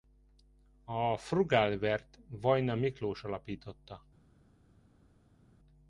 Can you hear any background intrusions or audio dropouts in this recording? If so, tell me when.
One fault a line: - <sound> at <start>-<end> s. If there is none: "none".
none